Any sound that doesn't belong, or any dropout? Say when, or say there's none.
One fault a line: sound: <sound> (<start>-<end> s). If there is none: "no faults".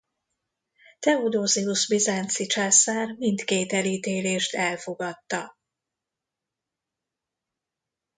no faults